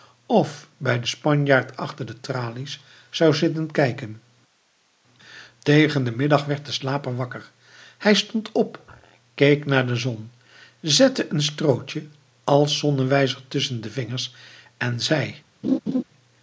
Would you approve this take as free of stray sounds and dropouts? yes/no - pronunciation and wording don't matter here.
no